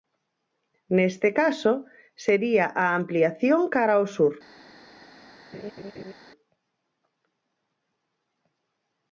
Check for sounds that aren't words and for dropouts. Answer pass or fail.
fail